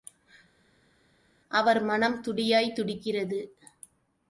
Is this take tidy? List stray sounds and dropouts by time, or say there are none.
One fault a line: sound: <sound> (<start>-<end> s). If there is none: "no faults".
no faults